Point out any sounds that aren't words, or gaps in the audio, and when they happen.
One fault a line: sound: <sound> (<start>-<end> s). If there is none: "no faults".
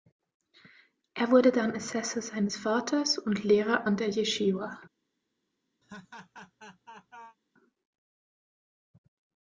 sound: laugh (5.8-7.4 s)